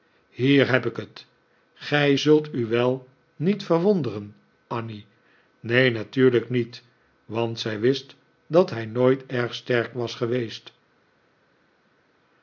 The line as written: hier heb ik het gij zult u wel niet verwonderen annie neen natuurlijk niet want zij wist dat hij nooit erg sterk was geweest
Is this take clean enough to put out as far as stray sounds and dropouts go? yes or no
yes